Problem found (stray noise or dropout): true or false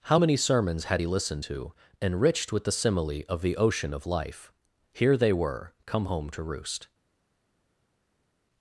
false